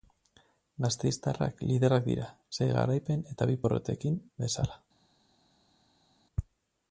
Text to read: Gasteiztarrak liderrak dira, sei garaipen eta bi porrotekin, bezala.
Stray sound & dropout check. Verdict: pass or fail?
pass